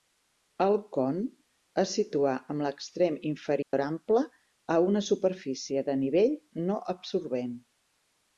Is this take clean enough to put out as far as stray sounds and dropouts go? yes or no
no